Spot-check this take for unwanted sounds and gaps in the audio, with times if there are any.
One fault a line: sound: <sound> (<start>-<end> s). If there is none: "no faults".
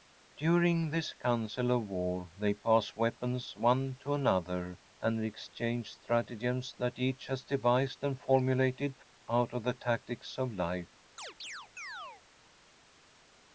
sound: chirp (11.2-12.2 s)